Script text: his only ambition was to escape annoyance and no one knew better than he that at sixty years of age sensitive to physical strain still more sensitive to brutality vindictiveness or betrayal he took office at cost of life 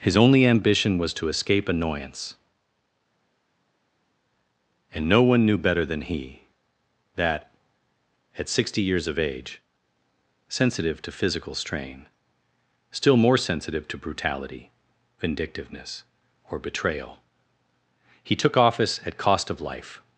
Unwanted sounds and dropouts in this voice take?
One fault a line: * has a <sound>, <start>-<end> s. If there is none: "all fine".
all fine